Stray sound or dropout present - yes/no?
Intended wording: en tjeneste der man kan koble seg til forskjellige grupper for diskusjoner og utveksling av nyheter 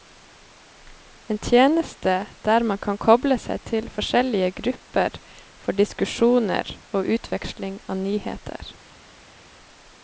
no